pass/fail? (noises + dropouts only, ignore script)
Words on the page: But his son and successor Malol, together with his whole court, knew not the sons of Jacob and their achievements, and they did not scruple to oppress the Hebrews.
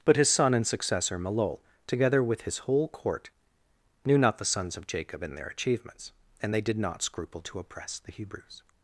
pass